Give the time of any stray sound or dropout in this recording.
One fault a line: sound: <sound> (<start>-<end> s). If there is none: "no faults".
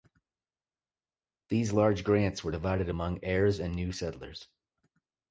no faults